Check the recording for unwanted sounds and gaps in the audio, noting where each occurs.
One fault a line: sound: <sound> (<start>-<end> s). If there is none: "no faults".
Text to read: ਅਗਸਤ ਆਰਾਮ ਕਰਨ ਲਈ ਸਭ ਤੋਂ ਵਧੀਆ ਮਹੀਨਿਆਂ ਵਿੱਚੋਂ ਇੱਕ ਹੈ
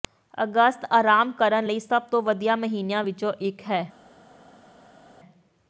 no faults